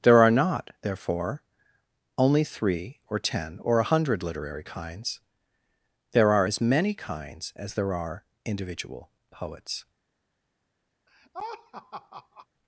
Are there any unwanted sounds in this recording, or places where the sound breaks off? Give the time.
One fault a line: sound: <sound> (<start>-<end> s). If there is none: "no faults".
sound: laugh (11.1-12.5 s)